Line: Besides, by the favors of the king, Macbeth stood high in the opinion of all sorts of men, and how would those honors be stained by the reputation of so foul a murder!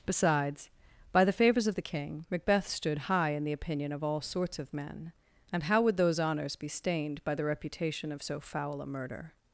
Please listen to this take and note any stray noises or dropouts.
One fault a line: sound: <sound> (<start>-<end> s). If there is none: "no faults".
no faults